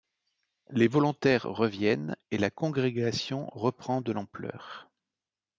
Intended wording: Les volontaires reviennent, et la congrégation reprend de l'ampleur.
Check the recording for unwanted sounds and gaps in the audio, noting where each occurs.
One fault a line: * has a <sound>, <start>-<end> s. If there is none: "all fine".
all fine